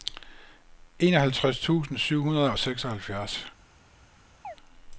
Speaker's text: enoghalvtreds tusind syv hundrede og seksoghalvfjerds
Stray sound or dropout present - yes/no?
yes